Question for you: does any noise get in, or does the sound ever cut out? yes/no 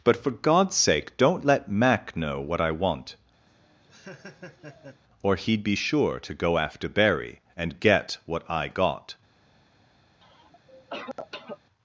yes